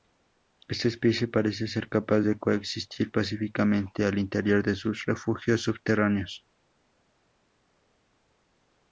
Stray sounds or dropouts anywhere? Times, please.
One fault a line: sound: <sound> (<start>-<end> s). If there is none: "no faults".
no faults